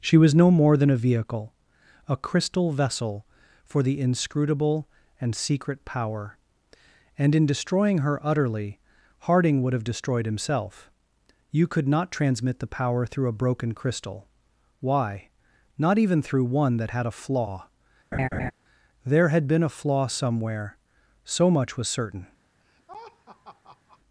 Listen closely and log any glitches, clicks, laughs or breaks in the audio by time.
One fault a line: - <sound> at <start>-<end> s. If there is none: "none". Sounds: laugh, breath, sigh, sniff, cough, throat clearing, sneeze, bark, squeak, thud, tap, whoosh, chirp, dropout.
- laugh at 18.1-18.5 s
- laugh at 22.6-24.0 s